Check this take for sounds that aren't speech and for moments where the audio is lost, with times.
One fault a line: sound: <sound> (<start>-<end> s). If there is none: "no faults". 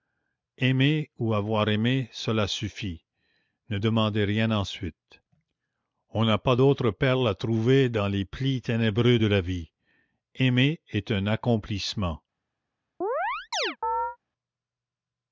sound: chirp (13.0-14.2 s)